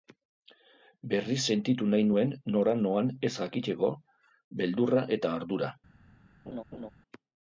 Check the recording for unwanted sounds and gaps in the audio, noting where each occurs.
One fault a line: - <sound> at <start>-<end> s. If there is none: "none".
- laugh at 6.5-6.9 s